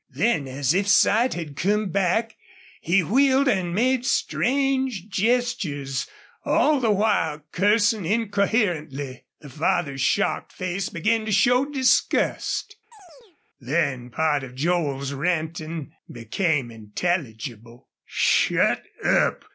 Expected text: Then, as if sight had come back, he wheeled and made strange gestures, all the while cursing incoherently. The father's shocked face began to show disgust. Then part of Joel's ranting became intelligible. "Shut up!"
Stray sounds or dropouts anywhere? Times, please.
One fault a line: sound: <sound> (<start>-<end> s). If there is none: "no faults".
sound: chirp (12.9-13.4 s)